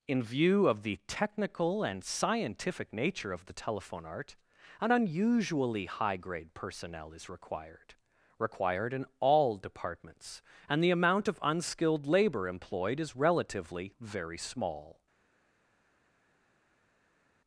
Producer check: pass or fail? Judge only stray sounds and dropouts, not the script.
pass